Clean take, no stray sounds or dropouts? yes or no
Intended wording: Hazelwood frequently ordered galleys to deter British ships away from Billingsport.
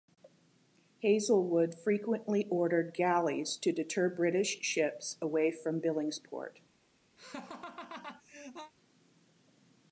no